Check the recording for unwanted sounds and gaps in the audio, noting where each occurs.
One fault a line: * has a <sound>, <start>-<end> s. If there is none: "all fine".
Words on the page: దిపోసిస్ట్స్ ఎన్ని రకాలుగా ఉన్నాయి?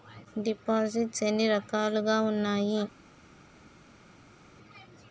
all fine